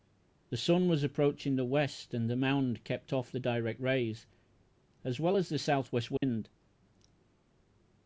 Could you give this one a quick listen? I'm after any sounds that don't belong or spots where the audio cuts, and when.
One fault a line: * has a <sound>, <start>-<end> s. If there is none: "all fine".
* has a dropout, 6.2-6.2 s